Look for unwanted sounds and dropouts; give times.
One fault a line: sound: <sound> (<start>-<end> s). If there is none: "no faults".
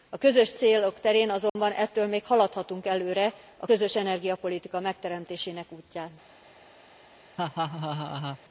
sound: dropout (1.5-1.6 s)
sound: laugh (7.4-8.4 s)